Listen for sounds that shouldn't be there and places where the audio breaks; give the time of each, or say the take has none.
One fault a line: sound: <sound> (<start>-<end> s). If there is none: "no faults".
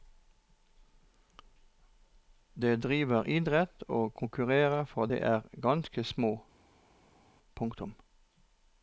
no faults